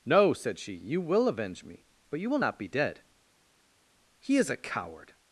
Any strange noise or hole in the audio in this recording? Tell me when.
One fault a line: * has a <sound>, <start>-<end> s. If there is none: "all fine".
all fine